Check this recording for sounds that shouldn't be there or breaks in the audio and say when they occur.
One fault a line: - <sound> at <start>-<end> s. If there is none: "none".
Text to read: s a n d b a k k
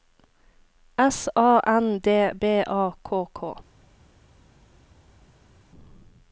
none